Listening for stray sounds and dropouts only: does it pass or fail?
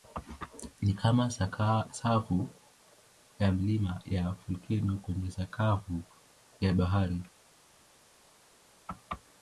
pass